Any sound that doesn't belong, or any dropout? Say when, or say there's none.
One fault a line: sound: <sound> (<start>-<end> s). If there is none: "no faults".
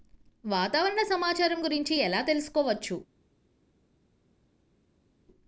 no faults